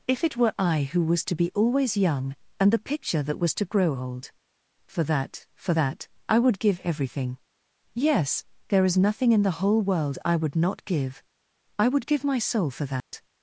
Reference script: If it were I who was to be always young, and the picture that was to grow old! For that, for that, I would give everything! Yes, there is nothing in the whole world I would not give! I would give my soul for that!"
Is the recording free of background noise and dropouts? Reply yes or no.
no